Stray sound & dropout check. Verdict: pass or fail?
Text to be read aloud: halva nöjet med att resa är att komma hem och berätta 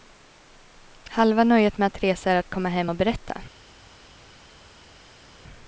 pass